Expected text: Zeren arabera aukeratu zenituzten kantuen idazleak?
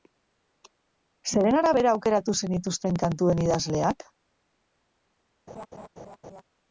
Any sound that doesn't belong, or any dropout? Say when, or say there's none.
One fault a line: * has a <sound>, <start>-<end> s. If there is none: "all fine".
* has a laugh, 5.5-6.4 s